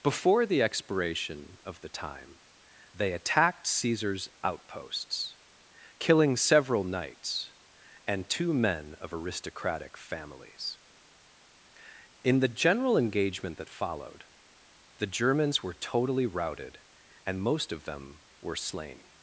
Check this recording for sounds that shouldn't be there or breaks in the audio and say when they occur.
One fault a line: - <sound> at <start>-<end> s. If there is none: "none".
none